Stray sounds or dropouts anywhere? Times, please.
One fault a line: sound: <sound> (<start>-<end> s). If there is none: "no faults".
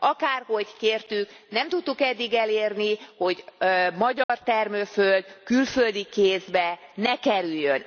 sound: dropout (4.2-4.3 s)